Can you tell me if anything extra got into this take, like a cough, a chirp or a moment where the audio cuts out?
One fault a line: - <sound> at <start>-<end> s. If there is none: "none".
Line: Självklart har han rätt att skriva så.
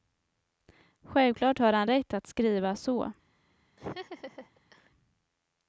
- laugh at 3.8-4.9 s